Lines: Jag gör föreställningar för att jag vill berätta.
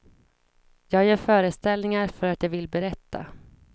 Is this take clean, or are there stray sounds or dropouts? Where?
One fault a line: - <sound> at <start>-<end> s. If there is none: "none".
none